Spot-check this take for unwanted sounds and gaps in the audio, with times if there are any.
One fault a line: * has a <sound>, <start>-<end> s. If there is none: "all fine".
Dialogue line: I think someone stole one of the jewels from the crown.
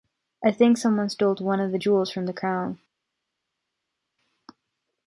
all fine